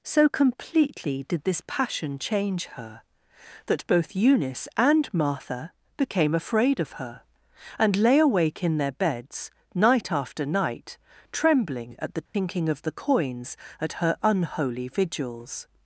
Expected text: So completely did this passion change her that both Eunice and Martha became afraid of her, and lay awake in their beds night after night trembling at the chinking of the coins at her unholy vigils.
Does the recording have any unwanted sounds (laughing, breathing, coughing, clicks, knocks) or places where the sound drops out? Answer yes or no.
yes